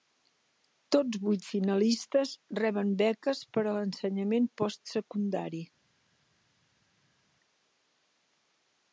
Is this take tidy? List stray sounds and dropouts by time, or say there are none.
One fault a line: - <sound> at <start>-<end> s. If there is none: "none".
none